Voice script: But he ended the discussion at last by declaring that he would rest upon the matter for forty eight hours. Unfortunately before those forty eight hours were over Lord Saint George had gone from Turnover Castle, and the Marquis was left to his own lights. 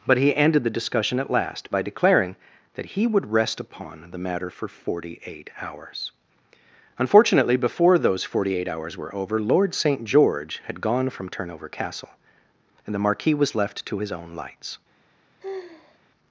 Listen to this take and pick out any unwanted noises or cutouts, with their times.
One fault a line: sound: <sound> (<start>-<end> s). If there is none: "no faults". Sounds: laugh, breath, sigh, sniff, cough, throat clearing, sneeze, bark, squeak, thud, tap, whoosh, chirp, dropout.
sound: sigh (15.4-16.0 s)